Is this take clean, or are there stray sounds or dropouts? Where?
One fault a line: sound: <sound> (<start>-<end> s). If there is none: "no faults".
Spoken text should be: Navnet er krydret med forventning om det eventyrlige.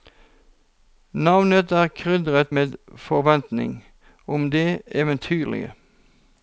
no faults